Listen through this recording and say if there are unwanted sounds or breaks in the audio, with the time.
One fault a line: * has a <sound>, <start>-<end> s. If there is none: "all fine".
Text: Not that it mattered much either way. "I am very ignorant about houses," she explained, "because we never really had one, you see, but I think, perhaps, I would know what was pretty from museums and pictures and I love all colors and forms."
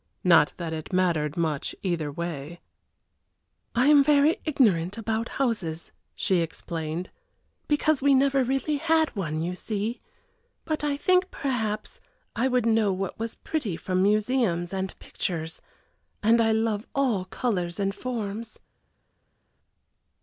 all fine